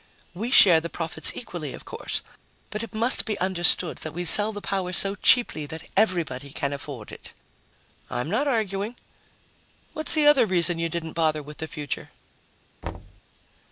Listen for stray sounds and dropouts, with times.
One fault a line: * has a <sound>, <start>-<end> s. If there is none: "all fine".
* has a thud, 12.8-13.2 s